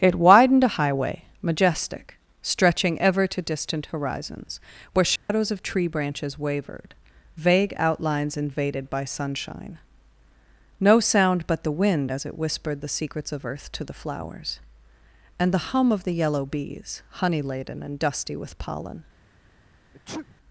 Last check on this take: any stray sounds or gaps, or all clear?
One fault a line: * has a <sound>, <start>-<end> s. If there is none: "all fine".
* has a dropout, 5.2-5.3 s
* has a sneeze, 19.9-20.4 s